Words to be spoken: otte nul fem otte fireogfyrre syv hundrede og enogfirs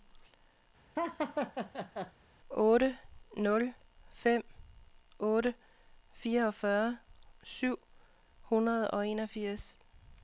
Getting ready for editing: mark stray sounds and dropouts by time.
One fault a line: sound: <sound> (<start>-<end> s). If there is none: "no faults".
sound: laugh (1.0-2.1 s)